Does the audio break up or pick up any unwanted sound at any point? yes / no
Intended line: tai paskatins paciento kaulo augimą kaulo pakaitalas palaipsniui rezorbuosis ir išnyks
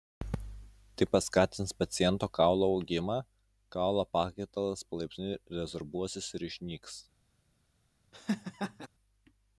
yes